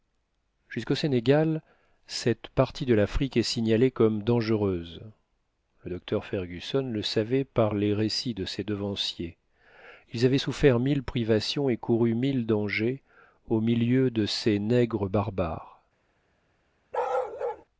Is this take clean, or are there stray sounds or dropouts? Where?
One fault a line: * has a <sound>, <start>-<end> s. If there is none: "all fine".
* has a bark, 16.9-17.6 s